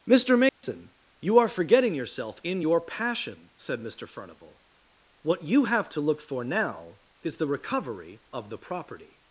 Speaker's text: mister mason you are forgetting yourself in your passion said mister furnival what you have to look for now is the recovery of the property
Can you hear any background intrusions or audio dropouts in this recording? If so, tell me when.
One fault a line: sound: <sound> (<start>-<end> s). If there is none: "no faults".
sound: dropout (0.5-0.6 s)